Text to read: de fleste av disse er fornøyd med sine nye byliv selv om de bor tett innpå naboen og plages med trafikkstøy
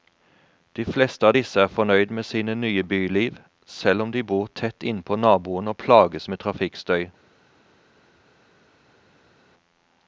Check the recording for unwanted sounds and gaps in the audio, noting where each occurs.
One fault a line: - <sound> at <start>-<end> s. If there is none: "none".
none